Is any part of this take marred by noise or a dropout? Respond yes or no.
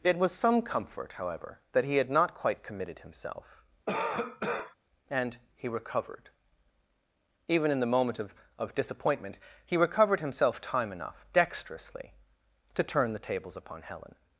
yes